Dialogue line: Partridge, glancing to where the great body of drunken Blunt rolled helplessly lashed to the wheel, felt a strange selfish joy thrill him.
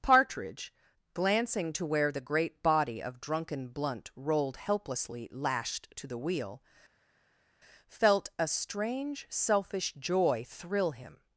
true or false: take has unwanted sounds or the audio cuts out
false